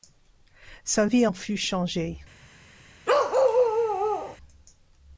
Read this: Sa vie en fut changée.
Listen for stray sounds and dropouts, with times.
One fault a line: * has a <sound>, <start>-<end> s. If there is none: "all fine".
* has a bark, 3.1-4.4 s